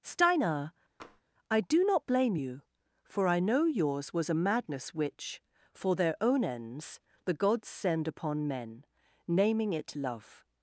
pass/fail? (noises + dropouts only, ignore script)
fail